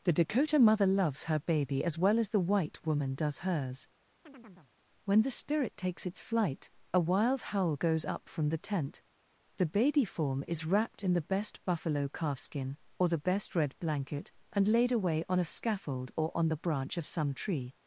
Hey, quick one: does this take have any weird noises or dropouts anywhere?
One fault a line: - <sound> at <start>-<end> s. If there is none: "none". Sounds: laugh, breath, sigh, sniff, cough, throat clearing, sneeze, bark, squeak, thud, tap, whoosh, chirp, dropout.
- chirp at 4.3-4.7 s